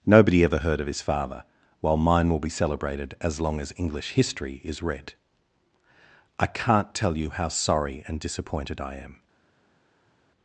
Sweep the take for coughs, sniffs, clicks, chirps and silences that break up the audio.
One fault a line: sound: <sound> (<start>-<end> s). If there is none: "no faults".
no faults